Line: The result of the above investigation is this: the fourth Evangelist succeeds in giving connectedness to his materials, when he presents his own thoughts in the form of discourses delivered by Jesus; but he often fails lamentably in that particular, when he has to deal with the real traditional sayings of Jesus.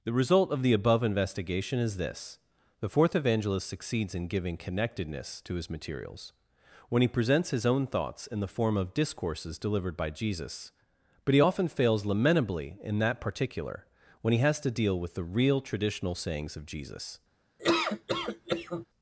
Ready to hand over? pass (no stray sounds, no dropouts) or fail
fail